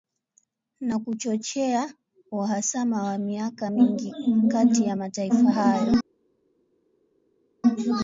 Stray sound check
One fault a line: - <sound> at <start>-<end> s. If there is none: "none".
none